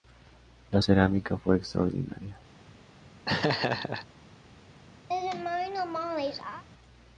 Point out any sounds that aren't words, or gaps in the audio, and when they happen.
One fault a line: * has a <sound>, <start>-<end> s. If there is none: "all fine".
* has a laugh, 3.3-4.1 s
* has a laugh, 5.1-6.6 s